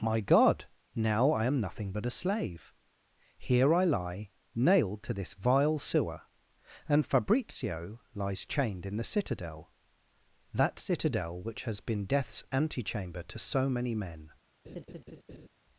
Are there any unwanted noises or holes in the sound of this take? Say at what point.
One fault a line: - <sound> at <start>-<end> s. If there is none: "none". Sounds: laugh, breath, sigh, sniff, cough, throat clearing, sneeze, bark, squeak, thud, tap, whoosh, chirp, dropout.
- laugh at 14.6-15.5 s